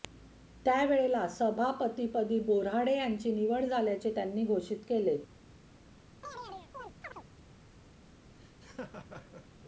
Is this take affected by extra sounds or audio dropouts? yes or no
yes